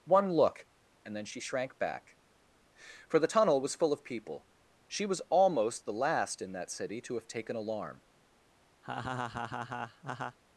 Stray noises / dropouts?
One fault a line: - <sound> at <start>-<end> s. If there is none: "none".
- laugh at 8.8-10.4 s